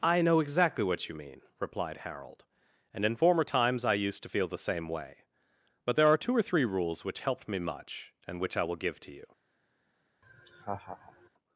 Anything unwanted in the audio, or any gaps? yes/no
yes